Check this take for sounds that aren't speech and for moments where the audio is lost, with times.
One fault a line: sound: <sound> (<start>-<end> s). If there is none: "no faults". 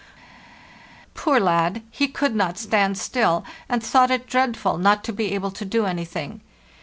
no faults